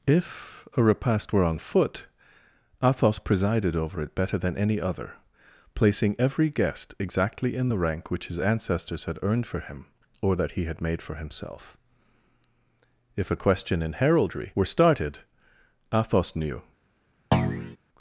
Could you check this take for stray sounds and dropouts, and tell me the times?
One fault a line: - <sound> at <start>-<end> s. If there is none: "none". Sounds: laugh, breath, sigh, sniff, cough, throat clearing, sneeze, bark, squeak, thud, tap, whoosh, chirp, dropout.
- thud at 17.3-17.8 s